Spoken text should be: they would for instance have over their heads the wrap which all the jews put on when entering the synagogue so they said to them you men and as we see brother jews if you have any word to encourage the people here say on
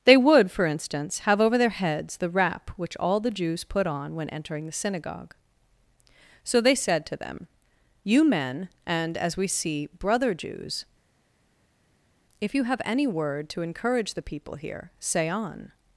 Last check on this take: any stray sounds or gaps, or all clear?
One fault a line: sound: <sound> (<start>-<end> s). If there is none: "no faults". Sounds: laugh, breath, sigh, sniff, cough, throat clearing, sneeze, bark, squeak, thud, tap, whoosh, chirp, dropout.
no faults